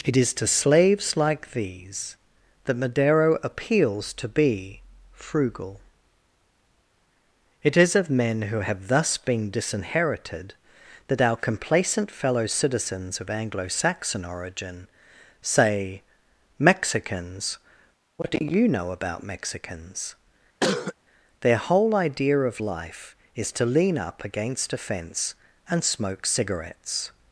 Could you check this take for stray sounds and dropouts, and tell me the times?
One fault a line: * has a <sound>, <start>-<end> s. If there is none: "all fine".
* has a cough, 20.6-20.9 s